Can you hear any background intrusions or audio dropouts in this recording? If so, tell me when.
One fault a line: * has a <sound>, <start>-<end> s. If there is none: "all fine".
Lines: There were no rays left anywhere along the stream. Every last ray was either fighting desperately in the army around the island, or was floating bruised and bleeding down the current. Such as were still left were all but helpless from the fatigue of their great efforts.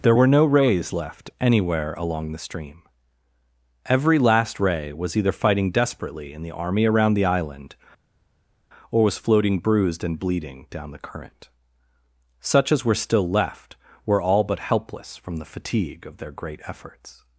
all fine